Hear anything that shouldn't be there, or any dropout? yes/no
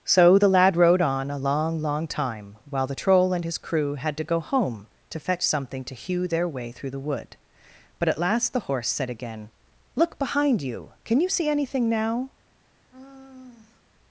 yes